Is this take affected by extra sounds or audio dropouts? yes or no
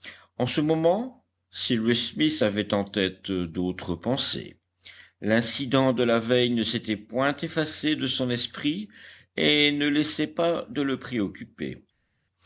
no